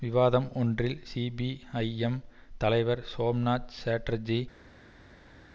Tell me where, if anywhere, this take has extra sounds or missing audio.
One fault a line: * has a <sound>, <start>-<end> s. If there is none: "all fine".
all fine